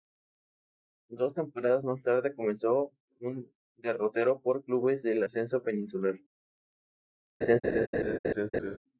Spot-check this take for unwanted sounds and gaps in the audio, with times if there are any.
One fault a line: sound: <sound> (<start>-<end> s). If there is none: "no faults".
sound: laugh (7.4-8.8 s)